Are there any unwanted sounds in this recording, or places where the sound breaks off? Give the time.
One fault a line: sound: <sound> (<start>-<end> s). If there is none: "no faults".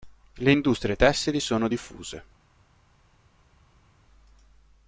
no faults